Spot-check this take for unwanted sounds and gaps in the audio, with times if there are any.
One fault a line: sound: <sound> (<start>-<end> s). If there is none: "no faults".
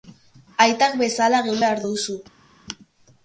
no faults